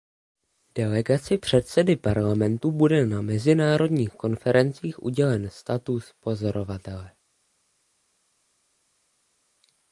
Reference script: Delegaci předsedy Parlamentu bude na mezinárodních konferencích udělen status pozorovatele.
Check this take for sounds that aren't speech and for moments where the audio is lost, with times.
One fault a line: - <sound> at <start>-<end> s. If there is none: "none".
none